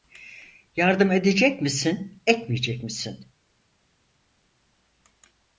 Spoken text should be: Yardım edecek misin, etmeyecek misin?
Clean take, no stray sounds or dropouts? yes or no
yes